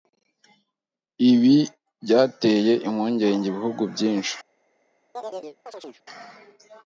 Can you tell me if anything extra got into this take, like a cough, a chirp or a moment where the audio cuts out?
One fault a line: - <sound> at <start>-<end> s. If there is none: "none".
- chirp at 5.1-6.0 s